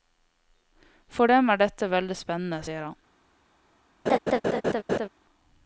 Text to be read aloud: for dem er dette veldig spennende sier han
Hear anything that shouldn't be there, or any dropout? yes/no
yes